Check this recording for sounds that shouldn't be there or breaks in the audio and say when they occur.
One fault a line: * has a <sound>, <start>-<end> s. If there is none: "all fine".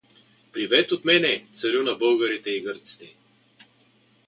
all fine